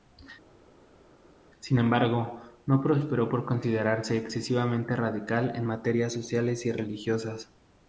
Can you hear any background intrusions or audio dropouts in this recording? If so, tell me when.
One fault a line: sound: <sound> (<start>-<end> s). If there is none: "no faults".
no faults